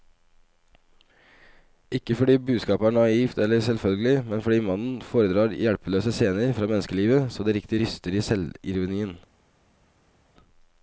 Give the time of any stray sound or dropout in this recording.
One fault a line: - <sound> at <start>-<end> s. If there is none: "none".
none